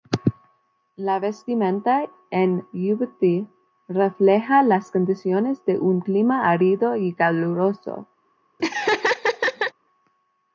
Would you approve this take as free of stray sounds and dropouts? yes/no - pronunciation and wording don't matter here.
no